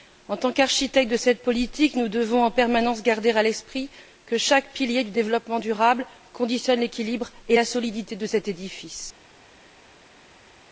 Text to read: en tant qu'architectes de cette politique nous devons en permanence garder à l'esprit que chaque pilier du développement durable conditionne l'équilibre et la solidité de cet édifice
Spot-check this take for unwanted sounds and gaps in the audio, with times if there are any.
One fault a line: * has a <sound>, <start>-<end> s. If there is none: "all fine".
all fine